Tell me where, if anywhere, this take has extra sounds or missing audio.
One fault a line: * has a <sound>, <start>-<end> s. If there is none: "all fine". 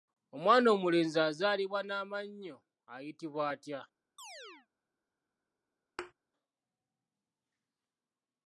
* has a chirp, 4.2-4.7 s
* has a thud, 6.0-6.1 s